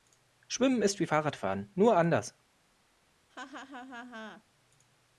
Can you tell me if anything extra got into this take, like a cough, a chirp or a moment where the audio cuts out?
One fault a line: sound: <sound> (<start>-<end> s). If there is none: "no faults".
sound: laugh (3.3-4.4 s)